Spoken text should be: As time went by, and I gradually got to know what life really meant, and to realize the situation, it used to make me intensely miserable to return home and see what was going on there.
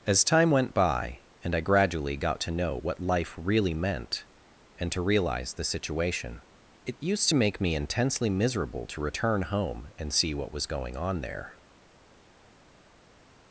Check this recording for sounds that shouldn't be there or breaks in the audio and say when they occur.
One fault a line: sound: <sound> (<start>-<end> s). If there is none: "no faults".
no faults